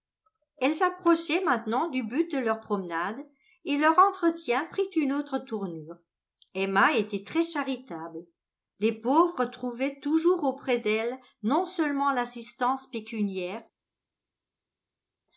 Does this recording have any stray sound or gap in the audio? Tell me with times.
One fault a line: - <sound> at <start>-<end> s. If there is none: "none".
none